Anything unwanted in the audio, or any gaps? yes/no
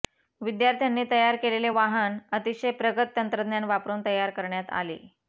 no